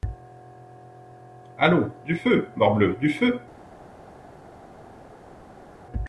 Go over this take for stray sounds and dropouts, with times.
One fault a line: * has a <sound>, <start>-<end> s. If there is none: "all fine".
all fine